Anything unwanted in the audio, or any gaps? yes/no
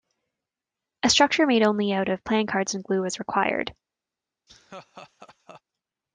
yes